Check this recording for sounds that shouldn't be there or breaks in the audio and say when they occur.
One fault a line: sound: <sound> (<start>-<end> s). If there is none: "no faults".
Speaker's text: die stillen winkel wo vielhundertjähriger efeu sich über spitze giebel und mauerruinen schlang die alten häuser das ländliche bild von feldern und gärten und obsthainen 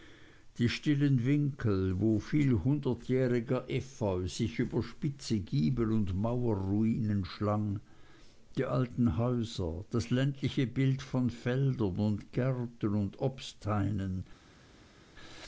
no faults